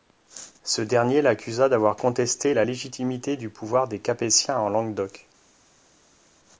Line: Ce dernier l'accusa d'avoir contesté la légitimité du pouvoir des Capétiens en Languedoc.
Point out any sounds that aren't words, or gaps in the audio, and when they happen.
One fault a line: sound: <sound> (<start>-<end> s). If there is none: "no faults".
no faults